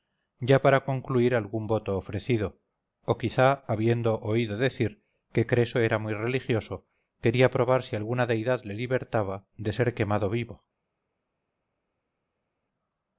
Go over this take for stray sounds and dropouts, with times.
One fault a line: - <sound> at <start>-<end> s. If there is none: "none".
none